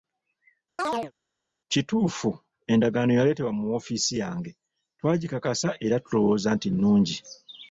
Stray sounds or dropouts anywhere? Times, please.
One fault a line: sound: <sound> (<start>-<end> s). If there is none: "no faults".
sound: chirp (0.8-1.1 s)